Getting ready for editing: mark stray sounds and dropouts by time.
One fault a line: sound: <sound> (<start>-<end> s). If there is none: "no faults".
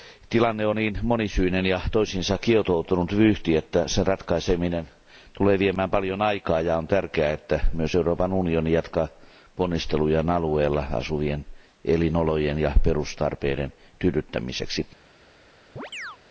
sound: chirp (15.8-16.2 s)